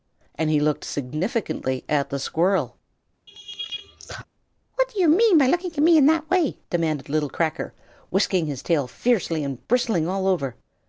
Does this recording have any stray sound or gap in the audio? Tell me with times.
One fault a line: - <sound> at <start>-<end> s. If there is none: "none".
- laugh at 3.3-4.3 s